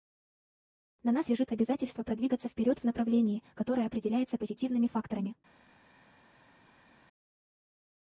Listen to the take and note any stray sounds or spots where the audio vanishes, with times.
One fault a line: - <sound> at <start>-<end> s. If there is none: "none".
none